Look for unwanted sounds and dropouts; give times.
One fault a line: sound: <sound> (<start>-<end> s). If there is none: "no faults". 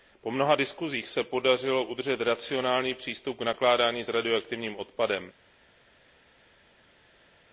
no faults